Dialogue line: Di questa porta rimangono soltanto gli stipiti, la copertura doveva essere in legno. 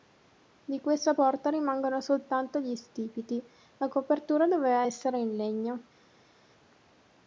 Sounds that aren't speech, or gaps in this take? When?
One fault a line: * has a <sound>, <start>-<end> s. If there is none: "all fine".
all fine